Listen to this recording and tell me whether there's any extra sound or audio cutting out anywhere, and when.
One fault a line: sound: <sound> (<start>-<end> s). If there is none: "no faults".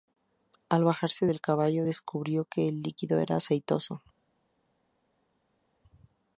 no faults